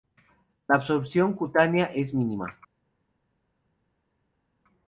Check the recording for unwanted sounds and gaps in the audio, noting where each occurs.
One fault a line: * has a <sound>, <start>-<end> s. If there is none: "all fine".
all fine